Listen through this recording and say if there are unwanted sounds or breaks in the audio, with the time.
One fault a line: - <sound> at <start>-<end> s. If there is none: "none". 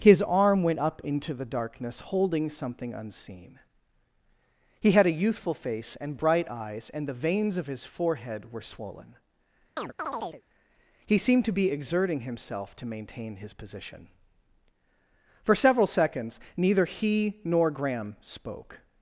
- chirp at 9.8-10.4 s